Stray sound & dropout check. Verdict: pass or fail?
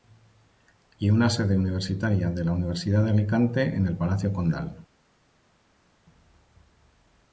pass